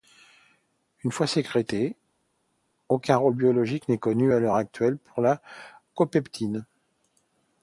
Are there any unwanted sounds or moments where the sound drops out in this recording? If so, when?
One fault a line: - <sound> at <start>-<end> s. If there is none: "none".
none